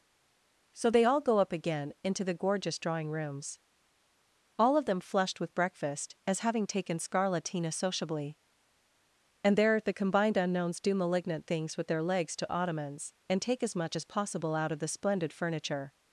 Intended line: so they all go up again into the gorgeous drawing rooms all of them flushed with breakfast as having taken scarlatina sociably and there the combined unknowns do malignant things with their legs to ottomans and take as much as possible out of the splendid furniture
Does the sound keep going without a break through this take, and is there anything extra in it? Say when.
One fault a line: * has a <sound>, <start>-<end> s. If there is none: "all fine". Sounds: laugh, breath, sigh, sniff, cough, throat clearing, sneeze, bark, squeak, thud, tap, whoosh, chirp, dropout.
all fine